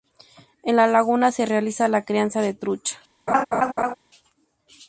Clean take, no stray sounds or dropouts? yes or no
no